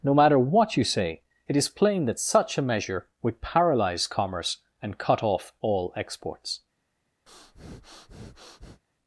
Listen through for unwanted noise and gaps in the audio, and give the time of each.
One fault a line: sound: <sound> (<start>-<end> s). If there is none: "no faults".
sound: breath (7.3-8.8 s)